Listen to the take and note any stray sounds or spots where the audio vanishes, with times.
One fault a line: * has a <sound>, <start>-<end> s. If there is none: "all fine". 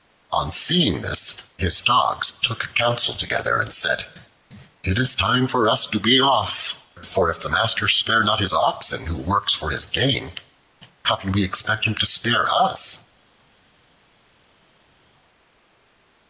all fine